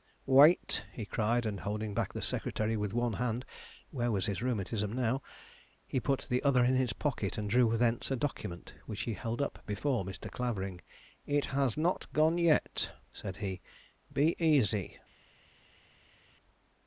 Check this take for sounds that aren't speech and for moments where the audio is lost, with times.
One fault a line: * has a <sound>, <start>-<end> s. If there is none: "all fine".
all fine